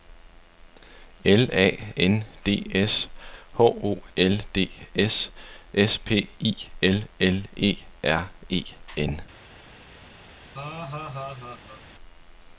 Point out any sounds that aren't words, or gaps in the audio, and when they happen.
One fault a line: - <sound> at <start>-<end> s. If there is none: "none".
- laugh at 10.5-11.8 s